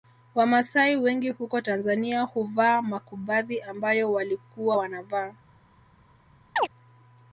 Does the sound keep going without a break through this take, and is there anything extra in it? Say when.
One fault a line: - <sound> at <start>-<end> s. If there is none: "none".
- chirp at 6.6-6.7 s